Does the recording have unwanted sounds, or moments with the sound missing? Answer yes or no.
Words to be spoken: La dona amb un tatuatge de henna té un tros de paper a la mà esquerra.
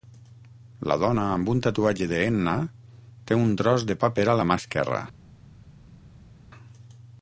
no